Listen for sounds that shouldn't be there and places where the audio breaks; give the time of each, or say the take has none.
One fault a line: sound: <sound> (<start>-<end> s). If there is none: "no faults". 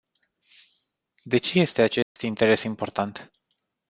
sound: dropout (2.0-2.2 s)